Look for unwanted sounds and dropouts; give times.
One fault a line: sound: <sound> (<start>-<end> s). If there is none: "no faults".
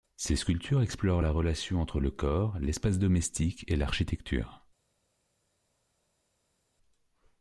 no faults